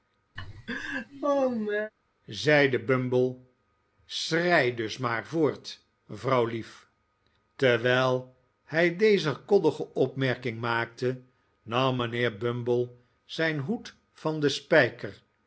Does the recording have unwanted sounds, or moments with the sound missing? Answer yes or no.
yes